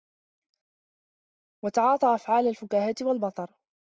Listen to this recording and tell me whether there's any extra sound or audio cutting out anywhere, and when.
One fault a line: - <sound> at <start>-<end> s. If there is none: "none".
none